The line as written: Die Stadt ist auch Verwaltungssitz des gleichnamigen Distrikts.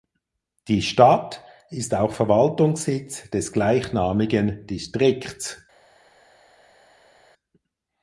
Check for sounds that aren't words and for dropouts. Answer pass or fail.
pass